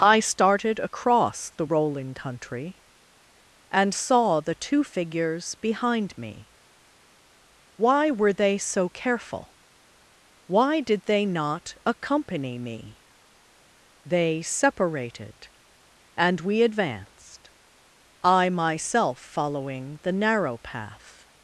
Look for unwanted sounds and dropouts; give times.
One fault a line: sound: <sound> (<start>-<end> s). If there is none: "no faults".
no faults